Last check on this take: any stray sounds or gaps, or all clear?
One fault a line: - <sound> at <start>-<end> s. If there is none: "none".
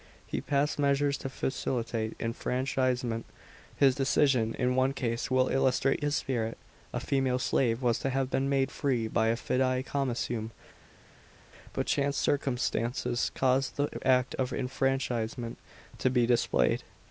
none